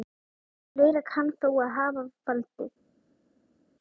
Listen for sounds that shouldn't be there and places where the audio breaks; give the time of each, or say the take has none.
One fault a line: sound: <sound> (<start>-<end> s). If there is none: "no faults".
no faults